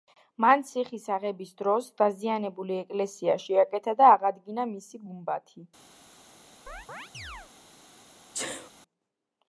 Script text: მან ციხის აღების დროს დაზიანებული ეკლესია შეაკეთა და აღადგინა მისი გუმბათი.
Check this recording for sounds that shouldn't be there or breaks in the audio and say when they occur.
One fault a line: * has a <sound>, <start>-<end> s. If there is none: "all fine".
* has a chirp, 6.7-7.5 s
* has a sneeze, 8.3-8.7 s